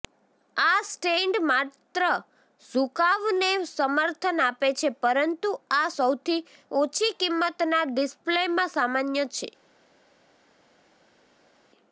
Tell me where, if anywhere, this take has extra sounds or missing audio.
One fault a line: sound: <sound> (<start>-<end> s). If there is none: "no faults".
no faults